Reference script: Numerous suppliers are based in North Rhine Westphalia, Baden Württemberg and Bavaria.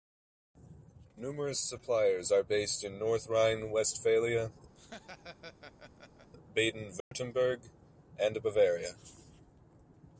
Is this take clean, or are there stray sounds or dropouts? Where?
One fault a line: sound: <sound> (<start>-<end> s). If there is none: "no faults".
sound: laugh (4.7-6.3 s)
sound: dropout (7.0-7.1 s)